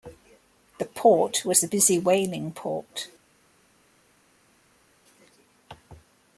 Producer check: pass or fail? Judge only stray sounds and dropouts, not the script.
pass